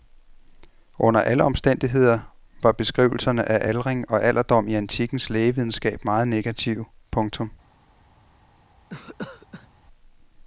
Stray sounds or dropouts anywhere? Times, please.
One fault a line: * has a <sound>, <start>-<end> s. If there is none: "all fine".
* has a cough, 8.9-9.7 s